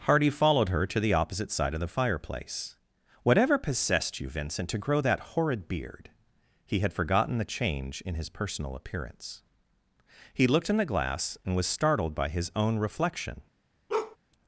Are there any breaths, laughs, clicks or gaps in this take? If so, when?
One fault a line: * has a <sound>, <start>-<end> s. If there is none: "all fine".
* has a bark, 13.9-14.2 s